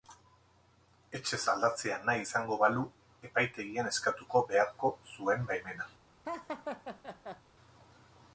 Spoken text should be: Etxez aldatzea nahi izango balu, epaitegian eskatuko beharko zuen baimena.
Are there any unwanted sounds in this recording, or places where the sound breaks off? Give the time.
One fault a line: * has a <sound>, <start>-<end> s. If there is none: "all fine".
* has a laugh, 6.2-7.4 s